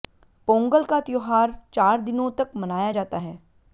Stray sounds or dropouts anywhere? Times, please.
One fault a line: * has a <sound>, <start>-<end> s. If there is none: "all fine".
all fine